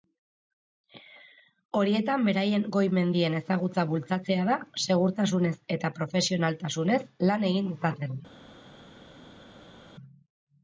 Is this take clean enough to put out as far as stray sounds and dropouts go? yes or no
yes